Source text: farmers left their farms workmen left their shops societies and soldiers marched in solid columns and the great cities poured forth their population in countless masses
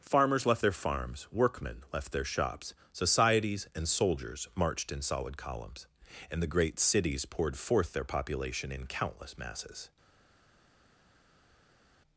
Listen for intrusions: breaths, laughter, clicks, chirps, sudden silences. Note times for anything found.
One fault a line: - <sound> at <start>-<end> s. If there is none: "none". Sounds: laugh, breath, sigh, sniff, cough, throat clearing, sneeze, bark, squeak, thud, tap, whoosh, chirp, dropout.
none